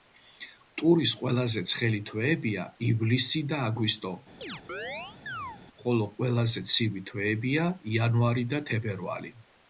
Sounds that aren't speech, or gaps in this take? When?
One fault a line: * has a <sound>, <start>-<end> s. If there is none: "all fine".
* has a chirp, 4.4-5.6 s